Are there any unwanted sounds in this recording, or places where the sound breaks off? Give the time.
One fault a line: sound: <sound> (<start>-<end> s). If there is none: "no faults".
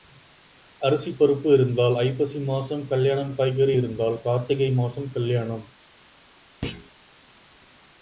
sound: thud (6.6-6.9 s)